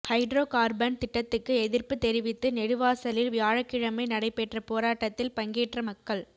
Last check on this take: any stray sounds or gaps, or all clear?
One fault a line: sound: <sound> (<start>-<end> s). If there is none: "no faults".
no faults